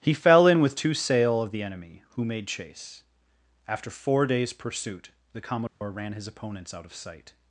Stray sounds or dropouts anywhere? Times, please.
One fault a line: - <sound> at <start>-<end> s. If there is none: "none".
- dropout at 5.7-5.8 s